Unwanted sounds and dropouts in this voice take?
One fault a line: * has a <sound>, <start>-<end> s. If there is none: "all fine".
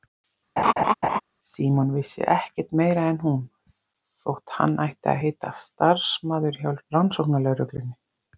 * has a laugh, 0.6-1.2 s